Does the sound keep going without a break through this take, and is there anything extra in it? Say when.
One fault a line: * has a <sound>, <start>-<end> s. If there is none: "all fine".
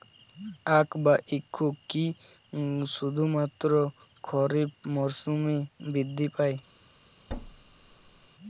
* has a thud, 7.3-8.3 s